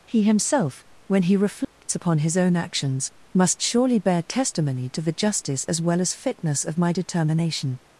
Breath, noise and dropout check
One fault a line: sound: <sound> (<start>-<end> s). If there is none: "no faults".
sound: dropout (1.6-1.8 s)